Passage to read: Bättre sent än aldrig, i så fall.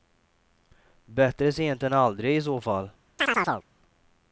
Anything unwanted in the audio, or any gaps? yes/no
yes